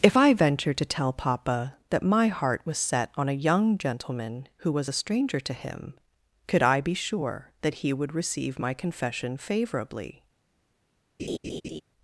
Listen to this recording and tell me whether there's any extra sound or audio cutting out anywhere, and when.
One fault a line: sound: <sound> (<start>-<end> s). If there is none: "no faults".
sound: laugh (11.2-11.8 s)